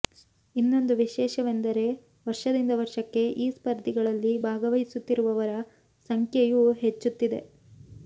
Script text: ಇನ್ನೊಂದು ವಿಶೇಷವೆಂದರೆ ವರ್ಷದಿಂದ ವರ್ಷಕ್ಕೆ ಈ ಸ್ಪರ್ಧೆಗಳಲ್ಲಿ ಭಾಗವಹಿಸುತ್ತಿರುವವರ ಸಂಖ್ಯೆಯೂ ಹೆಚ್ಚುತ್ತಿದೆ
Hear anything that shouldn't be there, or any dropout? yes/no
no